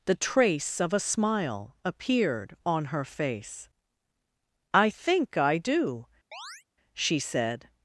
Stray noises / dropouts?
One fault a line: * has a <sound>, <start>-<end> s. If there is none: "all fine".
* has a chirp, 6.3-6.6 s